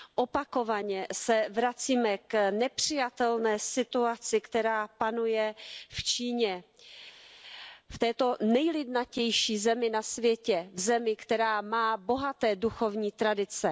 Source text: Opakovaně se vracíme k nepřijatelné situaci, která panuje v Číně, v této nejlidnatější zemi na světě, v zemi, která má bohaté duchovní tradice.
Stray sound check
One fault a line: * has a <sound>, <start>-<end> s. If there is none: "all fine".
all fine